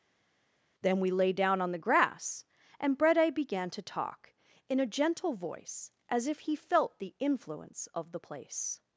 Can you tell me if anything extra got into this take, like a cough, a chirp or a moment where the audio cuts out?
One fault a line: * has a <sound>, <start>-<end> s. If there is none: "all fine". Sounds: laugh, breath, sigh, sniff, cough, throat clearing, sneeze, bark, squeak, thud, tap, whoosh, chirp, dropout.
all fine